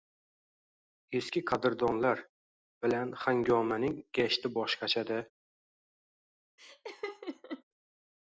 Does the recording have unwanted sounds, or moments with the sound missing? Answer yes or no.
yes